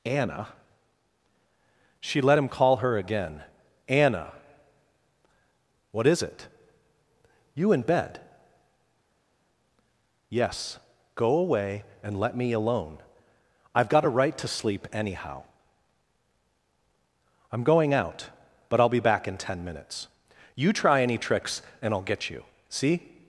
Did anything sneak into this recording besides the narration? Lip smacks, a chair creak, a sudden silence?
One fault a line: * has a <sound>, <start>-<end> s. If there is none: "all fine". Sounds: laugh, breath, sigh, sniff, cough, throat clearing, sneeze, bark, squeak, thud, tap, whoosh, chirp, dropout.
all fine